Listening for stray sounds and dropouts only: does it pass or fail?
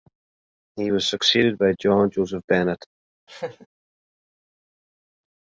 fail